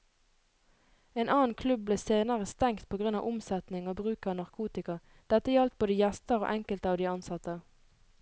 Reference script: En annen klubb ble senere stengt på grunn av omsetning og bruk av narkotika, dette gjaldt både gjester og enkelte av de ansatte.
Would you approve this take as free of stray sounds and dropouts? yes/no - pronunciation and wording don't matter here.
yes